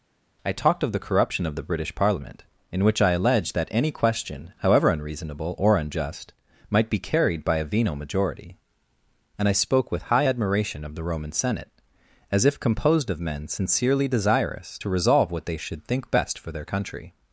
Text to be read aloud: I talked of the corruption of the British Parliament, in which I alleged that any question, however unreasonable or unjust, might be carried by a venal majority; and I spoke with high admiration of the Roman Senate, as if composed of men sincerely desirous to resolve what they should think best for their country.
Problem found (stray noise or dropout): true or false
false